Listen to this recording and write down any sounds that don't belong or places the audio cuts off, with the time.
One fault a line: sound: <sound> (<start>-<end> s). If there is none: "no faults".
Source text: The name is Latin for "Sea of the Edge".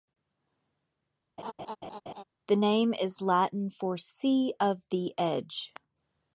sound: laugh (1.4-2.2 s)